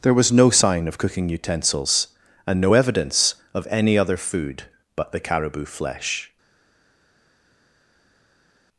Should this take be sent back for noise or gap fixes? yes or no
no